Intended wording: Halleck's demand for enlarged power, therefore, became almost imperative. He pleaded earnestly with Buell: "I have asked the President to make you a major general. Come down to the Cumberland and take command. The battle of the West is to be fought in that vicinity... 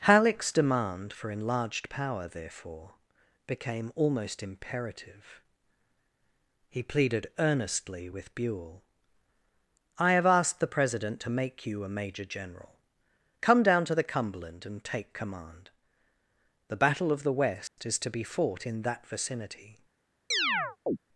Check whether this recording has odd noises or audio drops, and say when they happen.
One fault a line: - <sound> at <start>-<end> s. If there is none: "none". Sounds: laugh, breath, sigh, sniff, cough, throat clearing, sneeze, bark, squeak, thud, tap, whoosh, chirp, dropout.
- dropout at 17.7-17.8 s
- chirp at 20.3-21.0 s